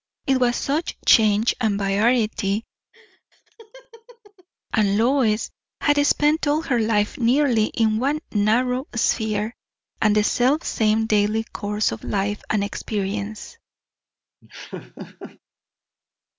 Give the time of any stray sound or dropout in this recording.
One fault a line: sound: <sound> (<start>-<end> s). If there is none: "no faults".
sound: laugh (2.9-4.5 s)
sound: laugh (14.4-15.4 s)